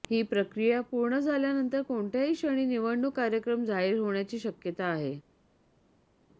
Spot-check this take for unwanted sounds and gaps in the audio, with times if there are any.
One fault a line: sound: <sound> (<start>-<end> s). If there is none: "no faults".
no faults